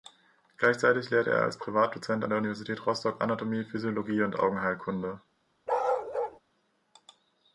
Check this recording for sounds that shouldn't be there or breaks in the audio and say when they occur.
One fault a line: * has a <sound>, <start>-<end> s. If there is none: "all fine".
* has a bark, 5.7-6.4 s